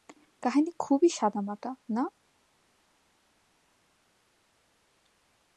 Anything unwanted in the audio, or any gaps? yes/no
no